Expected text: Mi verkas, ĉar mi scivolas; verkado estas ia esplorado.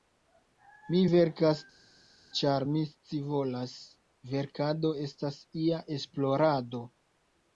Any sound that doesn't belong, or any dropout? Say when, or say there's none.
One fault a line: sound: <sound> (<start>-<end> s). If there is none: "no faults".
no faults